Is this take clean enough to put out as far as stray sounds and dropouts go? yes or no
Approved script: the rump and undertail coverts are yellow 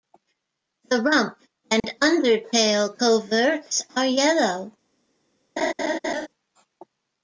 no